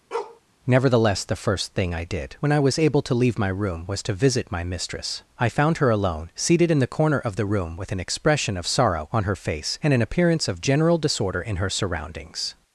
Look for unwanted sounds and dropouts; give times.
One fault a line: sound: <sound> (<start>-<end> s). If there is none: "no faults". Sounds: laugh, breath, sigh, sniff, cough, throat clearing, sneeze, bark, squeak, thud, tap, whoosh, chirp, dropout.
sound: bark (0.1-0.4 s)